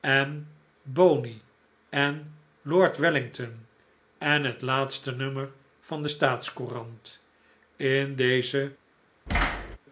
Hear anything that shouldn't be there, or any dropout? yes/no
yes